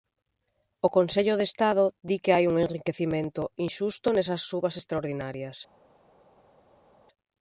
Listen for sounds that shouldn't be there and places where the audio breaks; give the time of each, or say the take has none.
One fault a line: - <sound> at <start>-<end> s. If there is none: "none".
none